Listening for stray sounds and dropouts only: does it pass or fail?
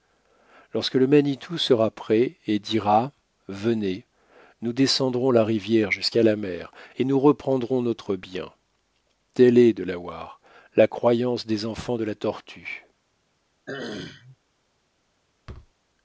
fail